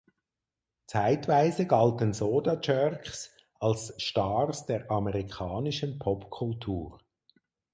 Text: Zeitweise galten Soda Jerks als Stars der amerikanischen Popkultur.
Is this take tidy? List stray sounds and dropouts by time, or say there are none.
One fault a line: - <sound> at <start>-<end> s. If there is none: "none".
none